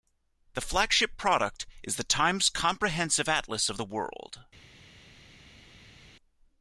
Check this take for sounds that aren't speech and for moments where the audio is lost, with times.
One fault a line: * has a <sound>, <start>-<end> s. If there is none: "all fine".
all fine